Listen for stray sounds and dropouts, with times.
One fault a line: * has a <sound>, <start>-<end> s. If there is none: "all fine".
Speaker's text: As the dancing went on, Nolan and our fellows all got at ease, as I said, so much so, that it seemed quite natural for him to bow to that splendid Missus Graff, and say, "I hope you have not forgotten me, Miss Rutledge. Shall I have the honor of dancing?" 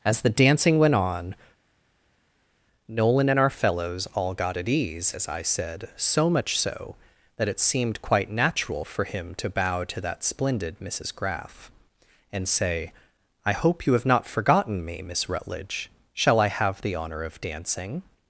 all fine